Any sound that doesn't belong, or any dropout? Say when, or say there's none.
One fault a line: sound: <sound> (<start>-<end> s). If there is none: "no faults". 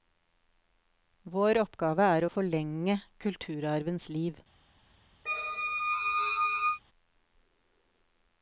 sound: squeak (5.3-6.8 s)